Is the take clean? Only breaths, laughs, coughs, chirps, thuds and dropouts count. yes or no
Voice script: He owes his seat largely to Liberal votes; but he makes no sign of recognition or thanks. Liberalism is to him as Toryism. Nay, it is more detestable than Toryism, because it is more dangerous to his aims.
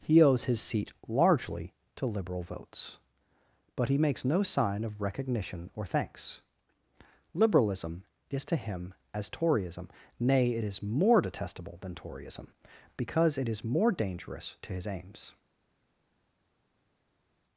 yes